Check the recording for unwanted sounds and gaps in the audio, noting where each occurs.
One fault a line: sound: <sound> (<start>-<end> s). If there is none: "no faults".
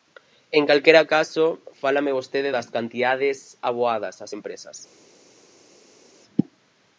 no faults